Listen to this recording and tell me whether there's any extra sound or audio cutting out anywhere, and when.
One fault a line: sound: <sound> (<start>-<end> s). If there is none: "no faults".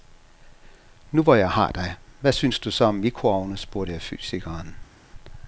no faults